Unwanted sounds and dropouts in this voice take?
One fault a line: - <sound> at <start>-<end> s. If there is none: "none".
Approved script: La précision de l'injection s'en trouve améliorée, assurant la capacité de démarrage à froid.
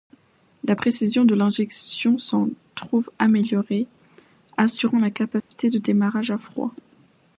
- dropout at 5.4-5.5 s